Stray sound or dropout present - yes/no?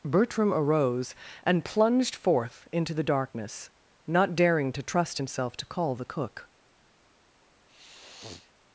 yes